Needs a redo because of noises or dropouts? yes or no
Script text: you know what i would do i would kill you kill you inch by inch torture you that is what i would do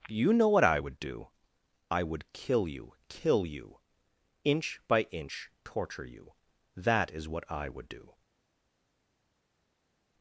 no